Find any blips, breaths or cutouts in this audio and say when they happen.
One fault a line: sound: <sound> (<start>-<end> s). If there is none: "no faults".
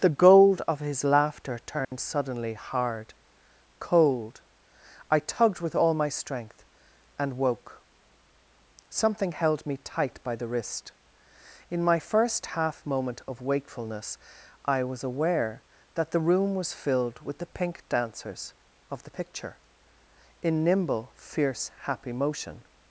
sound: dropout (1.8-1.9 s)